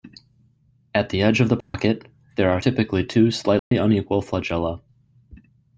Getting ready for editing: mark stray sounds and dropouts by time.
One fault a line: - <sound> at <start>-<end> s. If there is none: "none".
- dropout at 1.6-1.7 s
- dropout at 3.6-3.7 s